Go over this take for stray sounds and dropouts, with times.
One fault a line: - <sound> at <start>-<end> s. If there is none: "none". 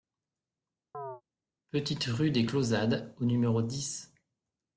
- chirp at 0.9-1.2 s